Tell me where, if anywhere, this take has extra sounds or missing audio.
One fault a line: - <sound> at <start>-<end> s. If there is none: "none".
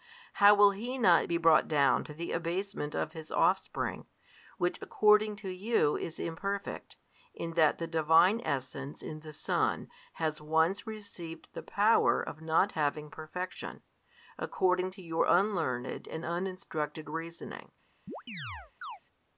- chirp at 18.1-19.0 s